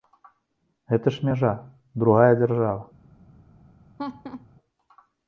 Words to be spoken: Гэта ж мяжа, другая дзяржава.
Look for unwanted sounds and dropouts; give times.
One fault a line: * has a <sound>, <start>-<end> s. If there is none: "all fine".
* has a laugh, 4.0-4.5 s